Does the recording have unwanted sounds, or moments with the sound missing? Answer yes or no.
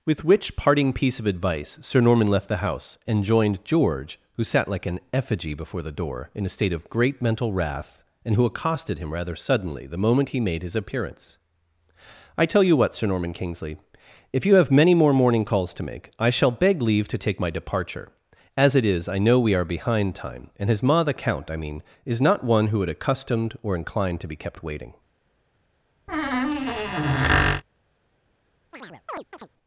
yes